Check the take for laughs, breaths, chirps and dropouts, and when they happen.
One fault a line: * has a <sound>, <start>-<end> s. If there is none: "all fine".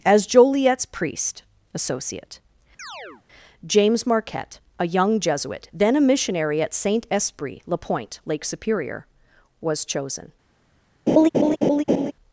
* has a chirp, 2.8-3.2 s
* has a laugh, 11.1-12.1 s